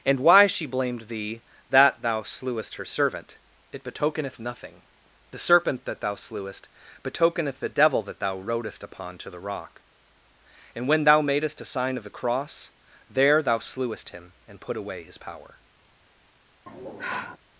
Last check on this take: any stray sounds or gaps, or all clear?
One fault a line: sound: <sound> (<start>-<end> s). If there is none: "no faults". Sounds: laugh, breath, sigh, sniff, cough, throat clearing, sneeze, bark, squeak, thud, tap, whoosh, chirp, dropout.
sound: sigh (16.7-17.4 s)